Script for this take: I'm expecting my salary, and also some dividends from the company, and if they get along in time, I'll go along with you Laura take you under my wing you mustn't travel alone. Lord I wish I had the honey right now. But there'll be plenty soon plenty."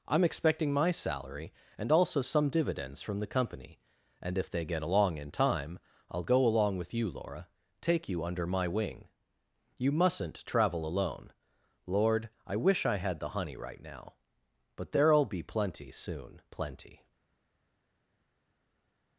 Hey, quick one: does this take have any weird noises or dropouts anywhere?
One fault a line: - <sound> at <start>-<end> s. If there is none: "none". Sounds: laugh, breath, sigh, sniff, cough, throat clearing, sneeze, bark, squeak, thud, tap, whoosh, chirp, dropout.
none